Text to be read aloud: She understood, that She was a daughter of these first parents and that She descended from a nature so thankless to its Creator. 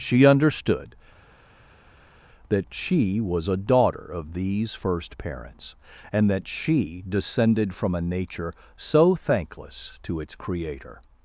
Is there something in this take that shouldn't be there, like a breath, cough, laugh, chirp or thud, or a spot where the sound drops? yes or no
no